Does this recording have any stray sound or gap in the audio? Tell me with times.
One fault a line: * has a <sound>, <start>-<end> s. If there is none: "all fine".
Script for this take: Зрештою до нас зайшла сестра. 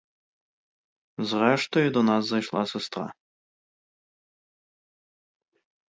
all fine